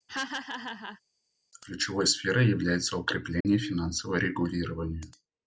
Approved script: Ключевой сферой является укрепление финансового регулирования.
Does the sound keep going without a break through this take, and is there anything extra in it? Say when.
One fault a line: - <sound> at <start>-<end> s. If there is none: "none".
- laugh at 0.1-1.0 s
- dropout at 3.4-3.5 s